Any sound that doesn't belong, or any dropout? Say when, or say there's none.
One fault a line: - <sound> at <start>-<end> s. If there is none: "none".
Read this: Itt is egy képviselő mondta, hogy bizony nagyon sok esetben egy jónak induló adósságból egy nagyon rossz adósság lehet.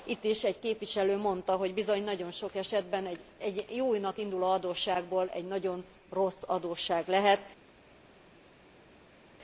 none